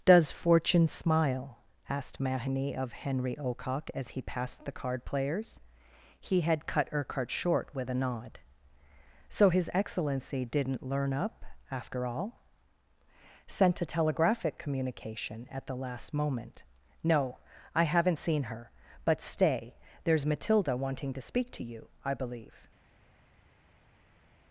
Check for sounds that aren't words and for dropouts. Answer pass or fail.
pass